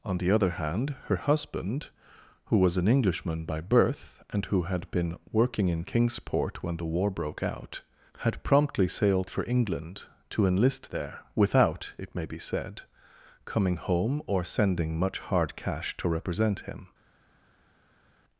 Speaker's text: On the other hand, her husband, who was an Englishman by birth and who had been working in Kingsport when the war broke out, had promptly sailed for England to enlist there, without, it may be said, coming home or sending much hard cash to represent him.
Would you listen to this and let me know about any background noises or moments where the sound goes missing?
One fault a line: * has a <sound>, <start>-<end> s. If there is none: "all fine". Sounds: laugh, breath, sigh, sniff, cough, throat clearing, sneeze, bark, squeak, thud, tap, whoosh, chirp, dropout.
all fine